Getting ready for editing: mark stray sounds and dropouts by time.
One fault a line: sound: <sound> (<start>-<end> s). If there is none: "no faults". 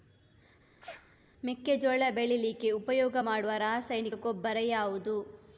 sound: sneeze (0.8-1.2 s)